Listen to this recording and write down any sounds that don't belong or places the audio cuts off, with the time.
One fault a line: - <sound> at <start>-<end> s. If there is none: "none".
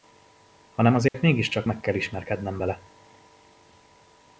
- dropout at 1.1-1.1 s